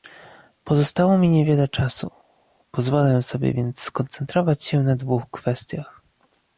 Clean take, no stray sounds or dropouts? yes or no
yes